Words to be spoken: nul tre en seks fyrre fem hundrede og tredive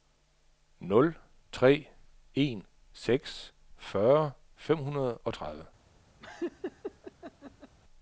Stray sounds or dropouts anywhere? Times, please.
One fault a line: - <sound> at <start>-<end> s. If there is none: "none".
- laugh at 6.2-7.8 s